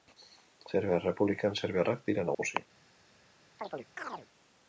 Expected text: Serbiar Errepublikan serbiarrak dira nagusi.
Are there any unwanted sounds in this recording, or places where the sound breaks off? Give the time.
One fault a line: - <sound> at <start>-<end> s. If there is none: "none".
- dropout at 2.3-2.4 s
- chirp at 3.6-4.3 s